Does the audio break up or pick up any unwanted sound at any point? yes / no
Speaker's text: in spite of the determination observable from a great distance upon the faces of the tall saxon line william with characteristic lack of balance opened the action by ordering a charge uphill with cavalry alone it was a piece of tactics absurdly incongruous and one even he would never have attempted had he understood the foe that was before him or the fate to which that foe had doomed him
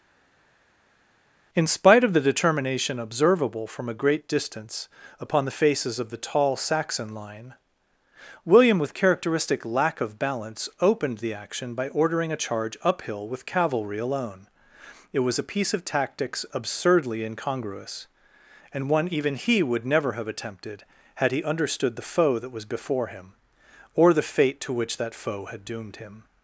no